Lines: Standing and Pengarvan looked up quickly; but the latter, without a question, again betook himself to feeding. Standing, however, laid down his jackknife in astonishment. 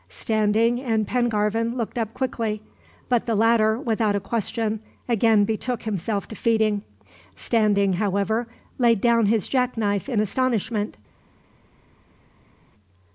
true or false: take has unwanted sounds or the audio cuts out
false